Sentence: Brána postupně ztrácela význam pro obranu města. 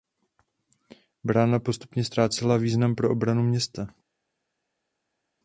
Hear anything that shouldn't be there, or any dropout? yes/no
no